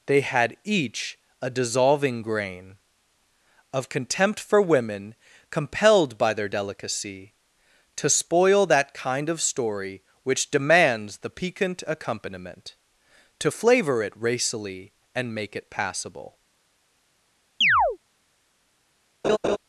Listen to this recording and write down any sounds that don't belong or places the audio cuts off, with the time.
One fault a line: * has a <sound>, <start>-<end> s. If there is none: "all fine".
* has a chirp, 17.6-18.0 s
* has a laugh, 19.2-19.6 s